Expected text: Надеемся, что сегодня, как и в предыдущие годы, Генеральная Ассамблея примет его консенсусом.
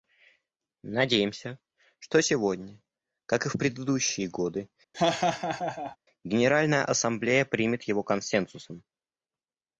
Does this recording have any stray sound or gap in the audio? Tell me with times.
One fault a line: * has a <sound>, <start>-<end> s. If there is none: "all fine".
* has a laugh, 4.9-6.0 s